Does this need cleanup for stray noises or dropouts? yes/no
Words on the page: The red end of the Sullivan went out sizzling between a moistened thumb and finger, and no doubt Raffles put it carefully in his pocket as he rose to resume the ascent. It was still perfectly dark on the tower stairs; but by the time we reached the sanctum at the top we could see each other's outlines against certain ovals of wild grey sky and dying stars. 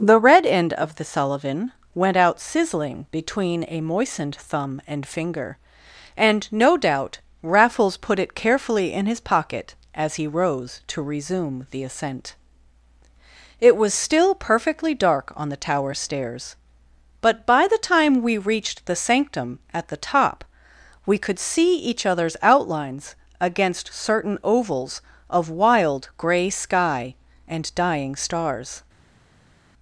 no